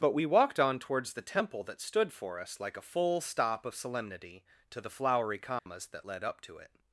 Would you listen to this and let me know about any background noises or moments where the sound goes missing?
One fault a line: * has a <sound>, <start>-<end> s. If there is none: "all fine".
* has a dropout, 5.6-5.7 s